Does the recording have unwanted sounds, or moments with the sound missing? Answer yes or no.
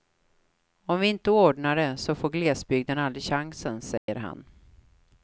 yes